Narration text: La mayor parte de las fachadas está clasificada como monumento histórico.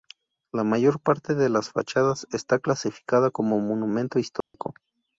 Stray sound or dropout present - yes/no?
yes